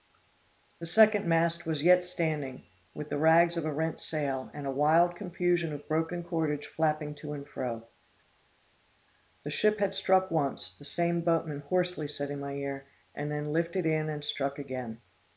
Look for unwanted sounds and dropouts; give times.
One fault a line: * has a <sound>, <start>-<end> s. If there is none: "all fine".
all fine